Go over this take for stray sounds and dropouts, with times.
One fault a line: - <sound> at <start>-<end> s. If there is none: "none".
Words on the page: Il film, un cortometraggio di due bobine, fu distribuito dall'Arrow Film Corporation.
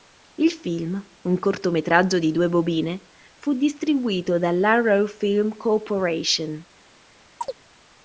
- chirp at 7.4-7.5 s